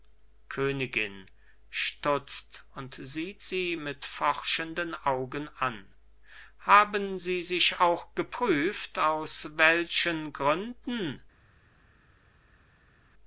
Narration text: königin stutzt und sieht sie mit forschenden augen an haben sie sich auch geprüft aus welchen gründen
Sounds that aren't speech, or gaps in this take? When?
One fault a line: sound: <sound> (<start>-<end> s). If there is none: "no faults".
no faults